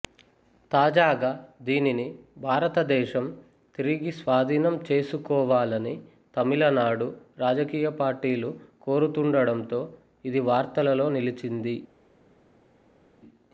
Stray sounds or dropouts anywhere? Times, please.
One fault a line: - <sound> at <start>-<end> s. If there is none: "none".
none